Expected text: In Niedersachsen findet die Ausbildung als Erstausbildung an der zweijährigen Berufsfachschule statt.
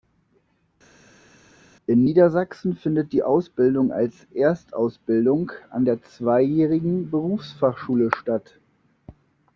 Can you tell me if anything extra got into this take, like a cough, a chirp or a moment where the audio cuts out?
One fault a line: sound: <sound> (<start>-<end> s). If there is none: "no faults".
no faults